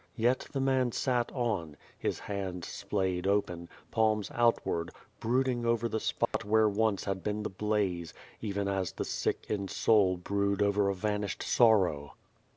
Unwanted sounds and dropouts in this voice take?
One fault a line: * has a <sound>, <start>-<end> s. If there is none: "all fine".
* has a dropout, 6.3-6.3 s